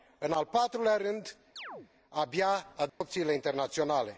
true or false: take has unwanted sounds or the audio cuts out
true